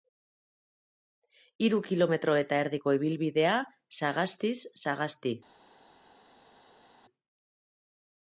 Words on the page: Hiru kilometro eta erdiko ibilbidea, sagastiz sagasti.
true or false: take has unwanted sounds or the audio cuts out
false